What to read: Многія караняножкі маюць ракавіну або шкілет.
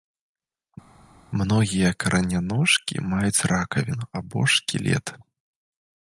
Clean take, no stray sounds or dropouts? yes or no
yes